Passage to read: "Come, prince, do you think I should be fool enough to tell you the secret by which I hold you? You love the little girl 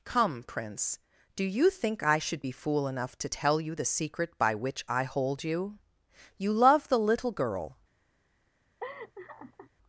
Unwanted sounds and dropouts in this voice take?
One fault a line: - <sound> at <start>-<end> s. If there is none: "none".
- laugh at 8.8-9.7 s